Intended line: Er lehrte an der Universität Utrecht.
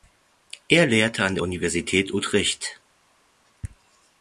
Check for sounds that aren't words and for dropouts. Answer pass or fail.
pass